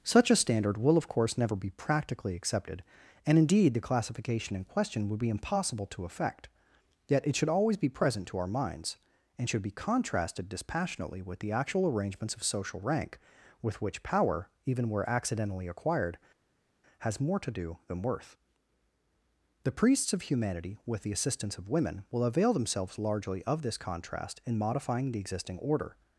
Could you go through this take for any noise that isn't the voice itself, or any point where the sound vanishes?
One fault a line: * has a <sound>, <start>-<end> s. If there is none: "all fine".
all fine